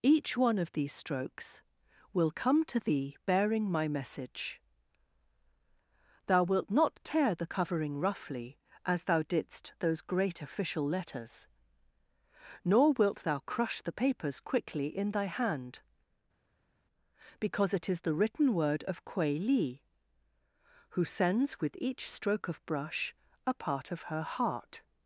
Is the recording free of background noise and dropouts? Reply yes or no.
yes